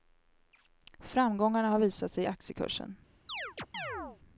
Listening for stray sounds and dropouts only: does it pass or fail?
fail